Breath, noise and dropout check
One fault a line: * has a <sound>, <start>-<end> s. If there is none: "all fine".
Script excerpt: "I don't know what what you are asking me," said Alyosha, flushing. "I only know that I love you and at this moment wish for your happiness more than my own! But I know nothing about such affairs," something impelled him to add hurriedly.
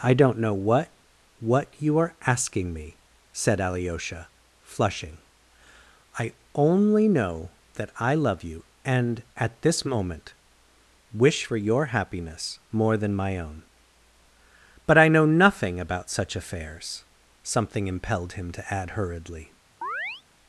* has a chirp, 19.8-20.2 s